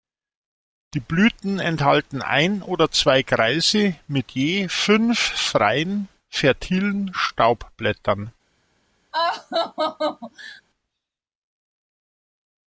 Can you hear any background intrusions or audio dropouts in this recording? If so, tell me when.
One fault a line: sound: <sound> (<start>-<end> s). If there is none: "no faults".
sound: laugh (9.1-10.6 s)